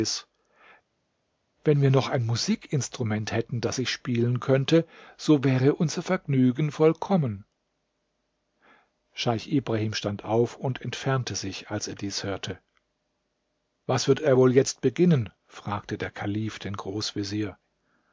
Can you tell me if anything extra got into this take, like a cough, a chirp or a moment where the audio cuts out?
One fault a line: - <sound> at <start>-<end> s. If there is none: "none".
none